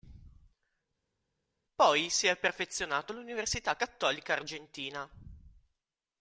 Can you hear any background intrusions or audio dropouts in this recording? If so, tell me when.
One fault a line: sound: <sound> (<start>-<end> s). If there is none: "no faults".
no faults